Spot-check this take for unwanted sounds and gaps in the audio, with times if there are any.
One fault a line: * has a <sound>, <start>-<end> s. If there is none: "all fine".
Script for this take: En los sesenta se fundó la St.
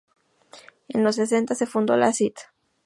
all fine